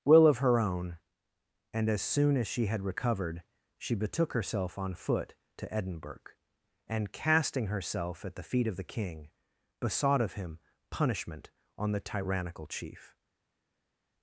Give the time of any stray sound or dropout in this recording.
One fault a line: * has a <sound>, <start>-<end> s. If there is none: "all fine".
all fine